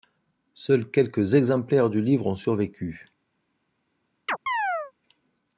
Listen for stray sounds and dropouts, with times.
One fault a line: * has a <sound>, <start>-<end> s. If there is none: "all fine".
* has a chirp, 4.3-4.9 s